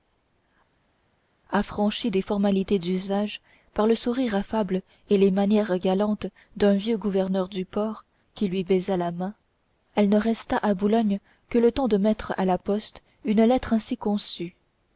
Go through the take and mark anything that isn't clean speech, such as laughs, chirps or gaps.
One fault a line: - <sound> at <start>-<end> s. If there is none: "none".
none